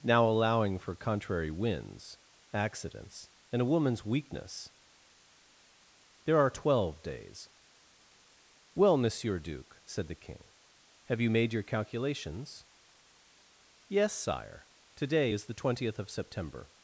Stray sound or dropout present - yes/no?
no